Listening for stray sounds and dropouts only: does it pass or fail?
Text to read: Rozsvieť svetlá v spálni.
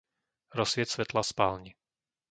pass